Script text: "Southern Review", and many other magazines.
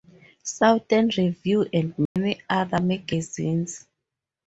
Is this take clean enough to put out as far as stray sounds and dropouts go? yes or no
no